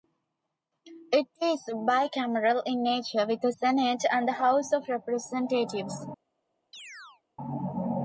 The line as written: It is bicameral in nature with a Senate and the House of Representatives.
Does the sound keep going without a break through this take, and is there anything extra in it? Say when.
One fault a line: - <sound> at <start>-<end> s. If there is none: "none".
- chirp at 6.7-7.2 s